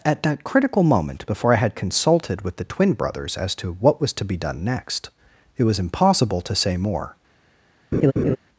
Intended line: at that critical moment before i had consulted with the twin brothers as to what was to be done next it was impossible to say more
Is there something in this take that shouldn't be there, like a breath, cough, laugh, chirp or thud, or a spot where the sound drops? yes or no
yes